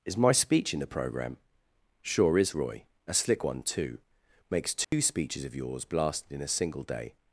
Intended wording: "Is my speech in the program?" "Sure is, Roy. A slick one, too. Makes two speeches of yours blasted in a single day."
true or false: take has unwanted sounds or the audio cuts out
true